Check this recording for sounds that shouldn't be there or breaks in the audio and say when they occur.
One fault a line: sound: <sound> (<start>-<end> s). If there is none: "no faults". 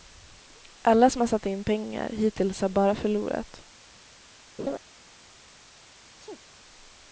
sound: laugh (4.6-4.8 s)
sound: sneeze (6.0-6.5 s)